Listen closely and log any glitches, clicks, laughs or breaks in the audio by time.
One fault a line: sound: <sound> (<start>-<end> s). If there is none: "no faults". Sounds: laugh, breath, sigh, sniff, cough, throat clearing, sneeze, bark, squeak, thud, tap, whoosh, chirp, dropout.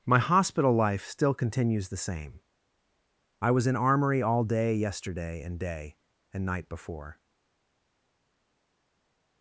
no faults